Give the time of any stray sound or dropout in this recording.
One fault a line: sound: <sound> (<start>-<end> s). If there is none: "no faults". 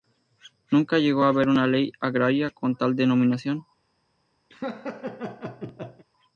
sound: laugh (4.5-6.1 s)